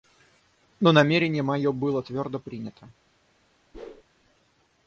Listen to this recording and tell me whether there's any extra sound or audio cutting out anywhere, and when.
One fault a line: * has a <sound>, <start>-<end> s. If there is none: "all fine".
* has a whoosh, 3.7-4.0 s